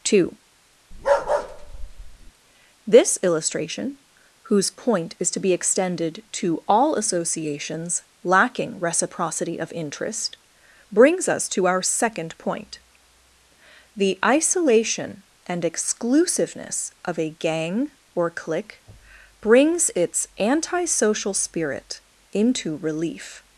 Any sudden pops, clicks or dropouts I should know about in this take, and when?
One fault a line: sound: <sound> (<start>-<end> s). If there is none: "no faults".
sound: bark (0.9-2.3 s)